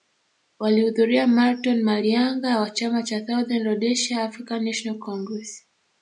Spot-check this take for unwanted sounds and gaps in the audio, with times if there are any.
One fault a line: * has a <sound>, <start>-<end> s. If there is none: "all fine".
all fine